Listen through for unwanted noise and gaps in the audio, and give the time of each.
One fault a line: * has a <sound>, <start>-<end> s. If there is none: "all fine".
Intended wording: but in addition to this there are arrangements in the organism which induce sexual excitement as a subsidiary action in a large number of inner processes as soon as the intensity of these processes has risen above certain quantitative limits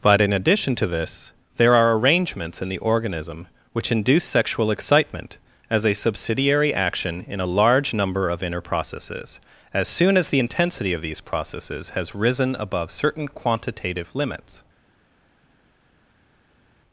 all fine